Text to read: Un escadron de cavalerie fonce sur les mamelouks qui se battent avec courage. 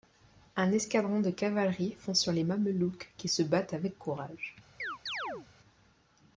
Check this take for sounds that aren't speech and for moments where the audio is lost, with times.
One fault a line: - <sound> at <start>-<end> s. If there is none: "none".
- chirp at 4.8-5.5 s